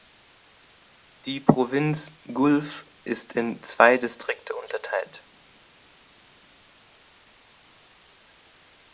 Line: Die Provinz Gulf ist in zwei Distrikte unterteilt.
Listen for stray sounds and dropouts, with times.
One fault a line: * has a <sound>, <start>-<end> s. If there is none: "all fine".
all fine